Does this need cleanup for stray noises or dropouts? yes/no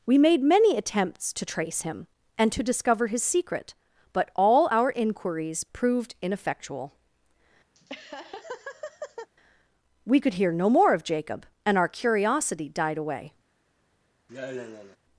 yes